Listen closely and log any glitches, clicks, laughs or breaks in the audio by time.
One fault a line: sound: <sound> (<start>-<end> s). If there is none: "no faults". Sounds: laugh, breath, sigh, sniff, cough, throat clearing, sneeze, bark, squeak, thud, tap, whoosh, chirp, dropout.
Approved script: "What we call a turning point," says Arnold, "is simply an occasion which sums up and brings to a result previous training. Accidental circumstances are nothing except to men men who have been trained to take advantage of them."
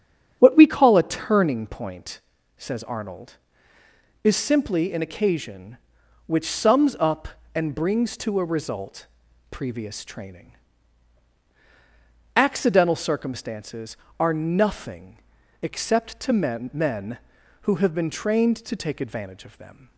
no faults